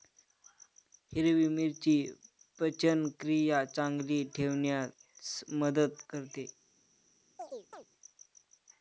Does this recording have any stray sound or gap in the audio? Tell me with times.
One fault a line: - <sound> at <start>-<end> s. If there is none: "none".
- chirp at 7.4-7.8 s